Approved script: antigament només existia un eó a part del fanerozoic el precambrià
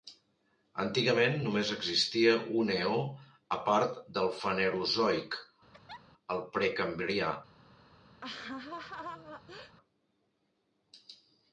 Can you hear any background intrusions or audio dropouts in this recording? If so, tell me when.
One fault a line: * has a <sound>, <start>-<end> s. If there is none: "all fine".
* has a laugh, 5.7-6.0 s
* has a laugh, 8.2-9.8 s